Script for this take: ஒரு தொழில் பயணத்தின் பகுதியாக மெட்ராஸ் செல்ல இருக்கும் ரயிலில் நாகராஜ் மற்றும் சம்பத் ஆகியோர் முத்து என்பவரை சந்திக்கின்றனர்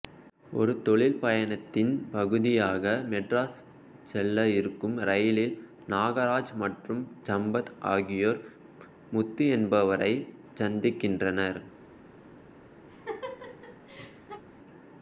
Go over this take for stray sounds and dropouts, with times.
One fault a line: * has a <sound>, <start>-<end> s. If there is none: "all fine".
* has a laugh, 12.9-14.4 s